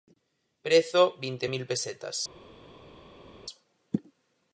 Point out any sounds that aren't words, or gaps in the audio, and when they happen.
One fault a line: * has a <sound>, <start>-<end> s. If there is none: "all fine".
all fine